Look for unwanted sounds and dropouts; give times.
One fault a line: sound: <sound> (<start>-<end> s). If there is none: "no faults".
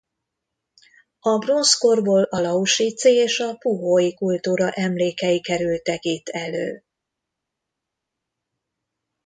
no faults